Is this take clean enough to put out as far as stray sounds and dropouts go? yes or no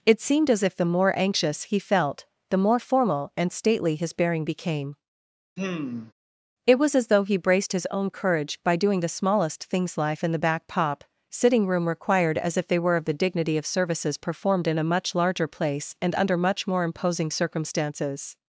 no